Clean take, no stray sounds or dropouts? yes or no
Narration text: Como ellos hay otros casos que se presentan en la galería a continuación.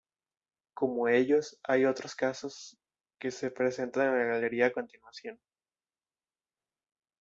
yes